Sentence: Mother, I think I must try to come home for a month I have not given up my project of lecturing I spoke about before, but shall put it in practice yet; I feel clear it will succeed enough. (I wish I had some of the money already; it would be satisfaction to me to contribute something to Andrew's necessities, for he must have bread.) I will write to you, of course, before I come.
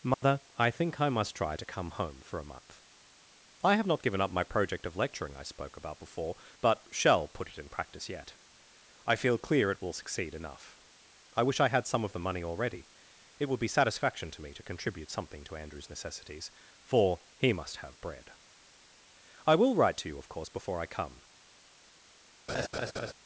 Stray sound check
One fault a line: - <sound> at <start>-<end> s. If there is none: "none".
- dropout at 0.1-0.2 s
- laugh at 22.5-23.1 s